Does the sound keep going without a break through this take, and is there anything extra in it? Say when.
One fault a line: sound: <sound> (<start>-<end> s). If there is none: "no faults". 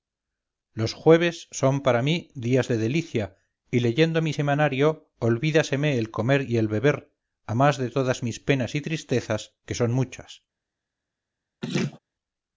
sound: laugh (11.6-12.0 s)